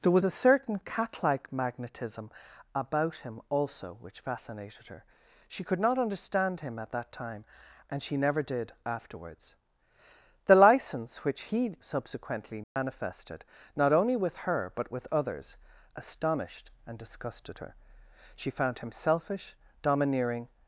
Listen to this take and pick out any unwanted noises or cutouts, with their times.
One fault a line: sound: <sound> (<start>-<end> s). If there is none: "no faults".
sound: dropout (12.6-12.8 s)